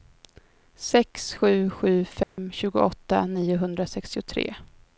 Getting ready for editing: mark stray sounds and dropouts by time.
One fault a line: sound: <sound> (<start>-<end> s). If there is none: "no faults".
sound: dropout (2.2-2.4 s)